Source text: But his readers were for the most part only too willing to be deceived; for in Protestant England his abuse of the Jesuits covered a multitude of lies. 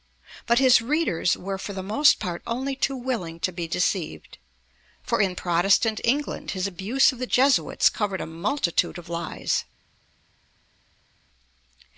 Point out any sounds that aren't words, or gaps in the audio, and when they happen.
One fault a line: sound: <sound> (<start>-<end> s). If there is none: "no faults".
no faults